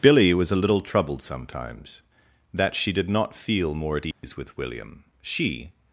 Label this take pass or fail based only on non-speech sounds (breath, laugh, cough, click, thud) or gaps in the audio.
fail